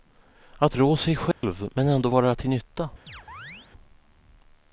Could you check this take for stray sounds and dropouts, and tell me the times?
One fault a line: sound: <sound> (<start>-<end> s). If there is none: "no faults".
sound: dropout (1.3-1.4 s)
sound: chirp (3.1-3.7 s)